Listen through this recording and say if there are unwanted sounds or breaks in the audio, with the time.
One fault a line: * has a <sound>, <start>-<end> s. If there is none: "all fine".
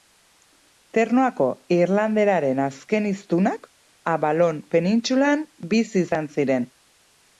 all fine